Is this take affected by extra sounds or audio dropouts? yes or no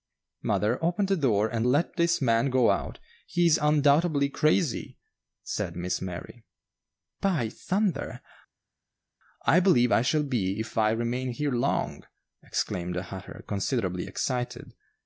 no